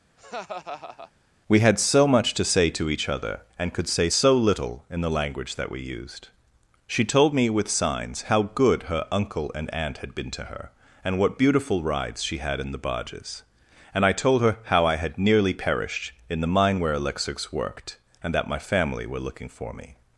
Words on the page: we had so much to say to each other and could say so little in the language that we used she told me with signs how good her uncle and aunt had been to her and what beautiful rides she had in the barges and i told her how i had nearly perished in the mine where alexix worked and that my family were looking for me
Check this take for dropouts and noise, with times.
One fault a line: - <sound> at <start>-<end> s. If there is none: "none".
- laugh at 0.2-1.1 s